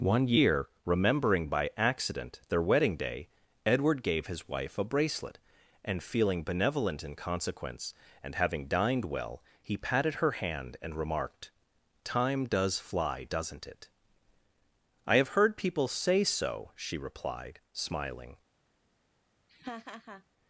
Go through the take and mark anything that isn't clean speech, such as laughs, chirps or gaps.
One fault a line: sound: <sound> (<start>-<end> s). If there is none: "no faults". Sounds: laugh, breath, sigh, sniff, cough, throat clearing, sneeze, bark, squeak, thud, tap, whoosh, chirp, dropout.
sound: laugh (19.5-20.2 s)